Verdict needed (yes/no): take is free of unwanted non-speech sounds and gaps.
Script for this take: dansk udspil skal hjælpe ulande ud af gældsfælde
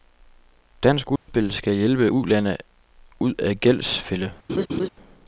no